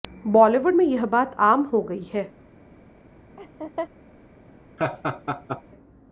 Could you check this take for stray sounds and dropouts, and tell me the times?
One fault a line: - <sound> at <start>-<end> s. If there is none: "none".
- laugh at 3.4-3.9 s
- laugh at 4.8-5.6 s